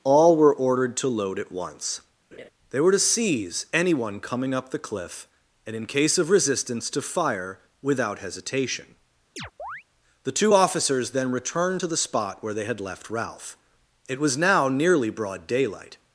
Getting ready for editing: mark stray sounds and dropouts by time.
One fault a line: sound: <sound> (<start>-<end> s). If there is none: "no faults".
sound: laugh (2.3-2.5 s)
sound: chirp (9.4-9.8 s)